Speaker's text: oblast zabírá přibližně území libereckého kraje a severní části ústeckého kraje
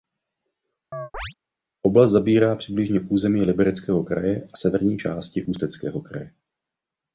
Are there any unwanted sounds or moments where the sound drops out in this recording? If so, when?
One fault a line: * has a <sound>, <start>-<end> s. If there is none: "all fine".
* has a chirp, 0.9-1.3 s